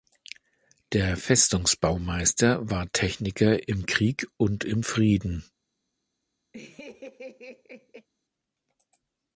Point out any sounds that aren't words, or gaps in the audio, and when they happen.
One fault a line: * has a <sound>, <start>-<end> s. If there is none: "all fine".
* has a laugh, 6.5-8.1 s